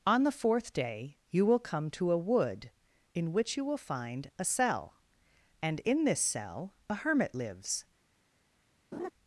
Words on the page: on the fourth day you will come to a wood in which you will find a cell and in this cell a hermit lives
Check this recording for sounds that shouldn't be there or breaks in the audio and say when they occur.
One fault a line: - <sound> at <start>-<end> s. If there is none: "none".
- laugh at 8.9-9.1 s